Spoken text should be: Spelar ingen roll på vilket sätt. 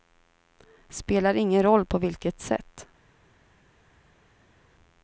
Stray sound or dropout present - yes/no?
no